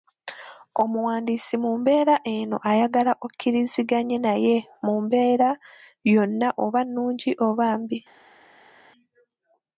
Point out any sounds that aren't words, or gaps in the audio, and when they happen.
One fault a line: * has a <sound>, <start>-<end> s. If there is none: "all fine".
all fine